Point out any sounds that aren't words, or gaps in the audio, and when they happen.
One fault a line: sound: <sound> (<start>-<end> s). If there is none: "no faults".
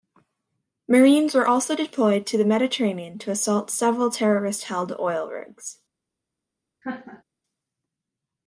sound: laugh (6.8-7.2 s)